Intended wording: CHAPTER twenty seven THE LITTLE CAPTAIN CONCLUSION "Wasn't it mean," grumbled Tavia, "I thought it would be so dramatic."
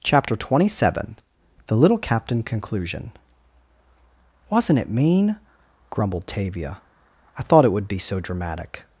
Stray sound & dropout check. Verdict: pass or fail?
pass